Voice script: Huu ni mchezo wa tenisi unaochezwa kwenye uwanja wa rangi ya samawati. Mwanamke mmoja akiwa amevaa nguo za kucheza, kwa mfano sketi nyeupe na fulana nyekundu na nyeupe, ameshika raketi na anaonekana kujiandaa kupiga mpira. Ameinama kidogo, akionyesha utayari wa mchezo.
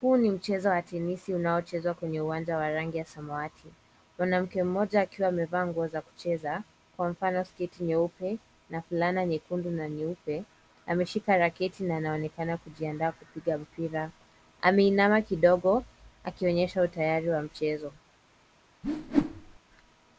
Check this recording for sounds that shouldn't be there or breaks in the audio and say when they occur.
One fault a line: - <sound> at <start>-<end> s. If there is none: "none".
- whoosh at 18.8-19.6 s